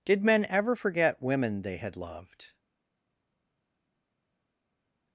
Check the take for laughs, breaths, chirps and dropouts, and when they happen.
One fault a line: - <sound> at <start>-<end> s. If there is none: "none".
none